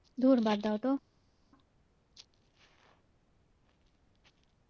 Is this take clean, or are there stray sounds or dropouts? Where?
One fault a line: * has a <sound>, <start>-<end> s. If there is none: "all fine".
all fine